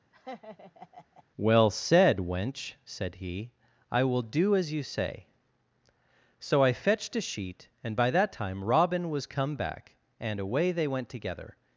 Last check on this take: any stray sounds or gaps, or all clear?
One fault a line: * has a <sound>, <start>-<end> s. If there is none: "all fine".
* has a laugh, 0.1-1.2 s